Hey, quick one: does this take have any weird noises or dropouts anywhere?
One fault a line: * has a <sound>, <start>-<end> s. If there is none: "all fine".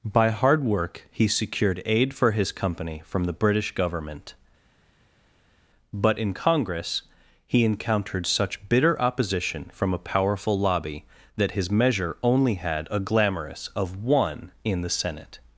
all fine